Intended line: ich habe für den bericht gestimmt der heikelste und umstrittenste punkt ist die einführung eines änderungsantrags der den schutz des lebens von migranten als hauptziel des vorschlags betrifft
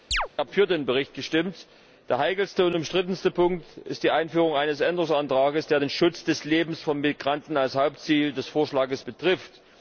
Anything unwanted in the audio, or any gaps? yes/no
yes